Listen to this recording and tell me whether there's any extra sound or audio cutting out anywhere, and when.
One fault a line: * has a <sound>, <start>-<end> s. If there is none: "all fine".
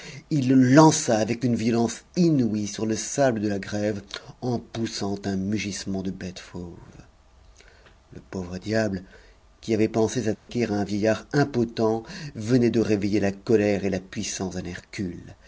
* has a dropout, 10.4-10.5 s